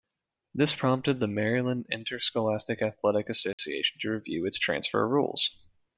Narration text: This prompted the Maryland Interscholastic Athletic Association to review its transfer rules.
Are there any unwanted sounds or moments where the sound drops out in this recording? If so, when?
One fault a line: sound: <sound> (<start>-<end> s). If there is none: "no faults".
sound: dropout (3.5-3.6 s)